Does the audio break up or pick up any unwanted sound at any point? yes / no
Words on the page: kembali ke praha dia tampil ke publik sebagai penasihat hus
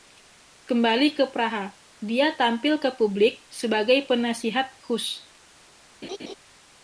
yes